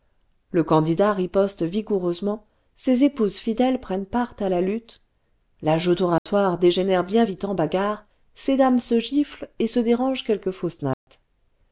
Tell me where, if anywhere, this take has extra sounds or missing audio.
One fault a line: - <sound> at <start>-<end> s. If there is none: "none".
- dropout at 6.2-6.3 s
- dropout at 10.9-11.1 s